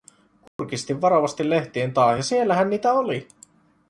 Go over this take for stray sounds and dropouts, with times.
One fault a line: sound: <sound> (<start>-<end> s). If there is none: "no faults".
sound: dropout (0.5-0.6 s)